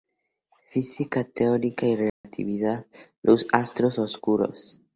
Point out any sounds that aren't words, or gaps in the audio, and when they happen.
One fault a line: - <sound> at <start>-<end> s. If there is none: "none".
- dropout at 2.1-2.2 s